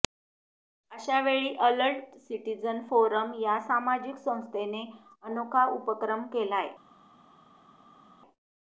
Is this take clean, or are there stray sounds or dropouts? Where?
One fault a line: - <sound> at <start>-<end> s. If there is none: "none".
none